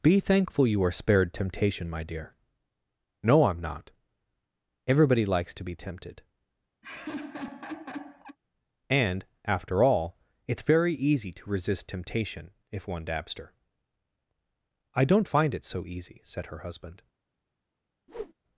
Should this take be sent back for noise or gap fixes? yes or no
yes